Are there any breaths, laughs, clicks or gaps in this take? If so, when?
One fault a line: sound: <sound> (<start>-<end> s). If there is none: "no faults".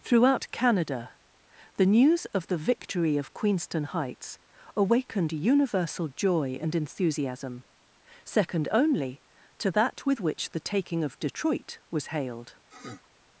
sound: sniff (12.7-13.1 s)